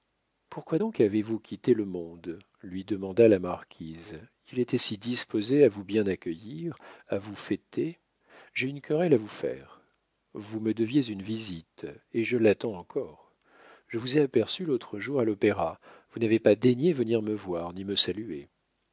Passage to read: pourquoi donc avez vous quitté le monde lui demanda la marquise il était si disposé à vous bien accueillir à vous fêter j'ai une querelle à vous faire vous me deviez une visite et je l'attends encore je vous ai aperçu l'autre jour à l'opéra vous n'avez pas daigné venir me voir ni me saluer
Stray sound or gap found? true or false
false